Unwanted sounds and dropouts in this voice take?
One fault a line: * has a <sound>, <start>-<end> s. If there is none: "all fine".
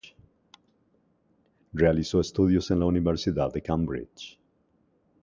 all fine